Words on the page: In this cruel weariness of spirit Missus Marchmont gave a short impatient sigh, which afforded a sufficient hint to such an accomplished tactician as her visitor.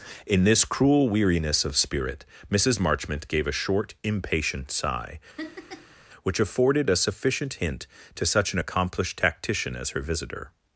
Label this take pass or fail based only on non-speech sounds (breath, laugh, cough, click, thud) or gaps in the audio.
fail